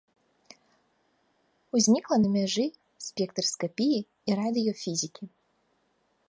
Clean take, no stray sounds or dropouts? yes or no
yes